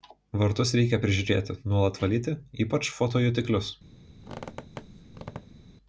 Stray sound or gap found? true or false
true